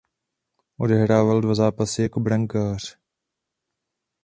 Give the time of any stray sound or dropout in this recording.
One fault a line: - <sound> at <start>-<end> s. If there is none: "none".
none